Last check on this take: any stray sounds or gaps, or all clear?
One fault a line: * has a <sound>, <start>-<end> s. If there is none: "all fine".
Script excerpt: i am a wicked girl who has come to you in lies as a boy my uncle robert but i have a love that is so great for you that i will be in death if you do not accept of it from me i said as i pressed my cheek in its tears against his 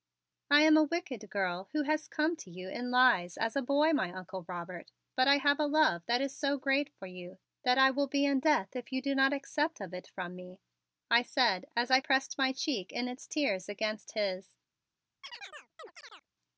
* has a chirp, 15.2-16.3 s